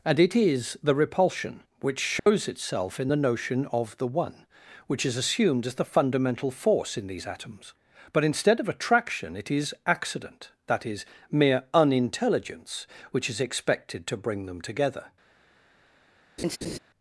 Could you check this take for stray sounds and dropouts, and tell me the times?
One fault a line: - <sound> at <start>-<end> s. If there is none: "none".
- dropout at 2.2-2.3 s
- laugh at 16.4-16.8 s